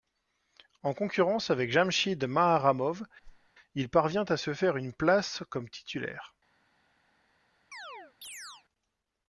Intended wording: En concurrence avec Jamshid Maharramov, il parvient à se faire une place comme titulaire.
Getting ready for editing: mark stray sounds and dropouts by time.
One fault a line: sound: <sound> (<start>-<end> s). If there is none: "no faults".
sound: whoosh (3.2-3.5 s)
sound: chirp (7.7-8.7 s)